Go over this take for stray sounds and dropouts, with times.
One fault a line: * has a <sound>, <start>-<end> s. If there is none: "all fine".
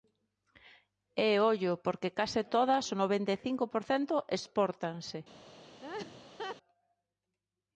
* has a laugh, 5.8-6.6 s